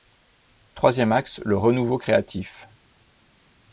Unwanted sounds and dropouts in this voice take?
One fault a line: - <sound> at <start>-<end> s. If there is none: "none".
none